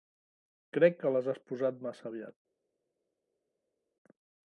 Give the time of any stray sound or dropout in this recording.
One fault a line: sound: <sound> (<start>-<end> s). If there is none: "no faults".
no faults